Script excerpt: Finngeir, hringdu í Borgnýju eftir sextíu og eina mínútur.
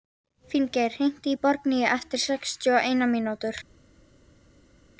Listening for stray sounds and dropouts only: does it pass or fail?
pass